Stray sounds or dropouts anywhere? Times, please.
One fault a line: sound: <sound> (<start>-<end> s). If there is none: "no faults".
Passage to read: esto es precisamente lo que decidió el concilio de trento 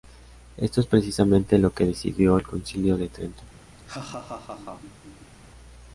sound: laugh (3.8-5.3 s)